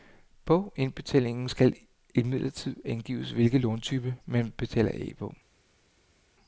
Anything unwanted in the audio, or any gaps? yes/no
no